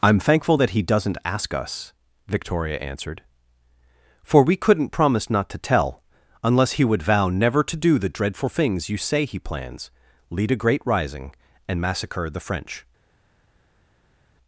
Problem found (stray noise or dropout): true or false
false